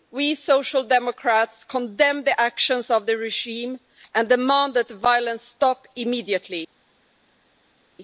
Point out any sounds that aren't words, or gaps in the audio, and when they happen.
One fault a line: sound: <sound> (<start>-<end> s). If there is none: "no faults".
no faults